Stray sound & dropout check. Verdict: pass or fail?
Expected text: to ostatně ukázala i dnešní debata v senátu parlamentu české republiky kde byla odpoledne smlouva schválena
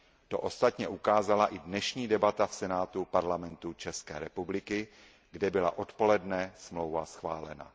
pass